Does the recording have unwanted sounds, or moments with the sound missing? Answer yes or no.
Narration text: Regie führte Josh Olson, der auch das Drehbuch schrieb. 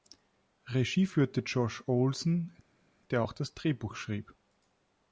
no